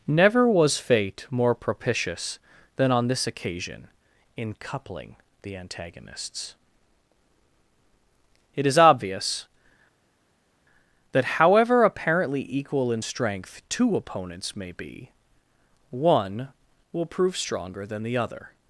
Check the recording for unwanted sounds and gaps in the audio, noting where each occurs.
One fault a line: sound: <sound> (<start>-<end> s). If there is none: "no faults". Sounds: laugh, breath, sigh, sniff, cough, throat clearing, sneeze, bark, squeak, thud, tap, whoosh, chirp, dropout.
no faults